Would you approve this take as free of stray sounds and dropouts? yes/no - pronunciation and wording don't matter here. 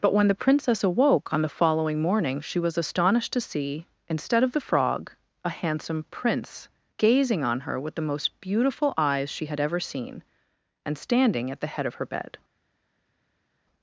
yes